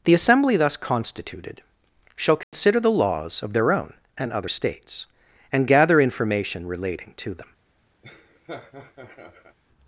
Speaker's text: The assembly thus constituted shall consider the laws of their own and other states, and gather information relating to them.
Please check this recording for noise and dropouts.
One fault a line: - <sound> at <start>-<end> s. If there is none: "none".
- dropout at 2.4-2.5 s
- laugh at 8.0-9.6 s